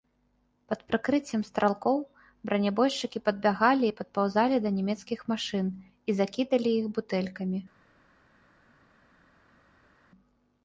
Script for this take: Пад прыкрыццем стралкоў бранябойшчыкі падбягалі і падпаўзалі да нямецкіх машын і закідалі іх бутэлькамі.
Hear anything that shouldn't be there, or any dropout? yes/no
no